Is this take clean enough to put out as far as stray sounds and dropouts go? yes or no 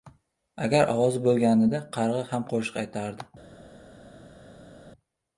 yes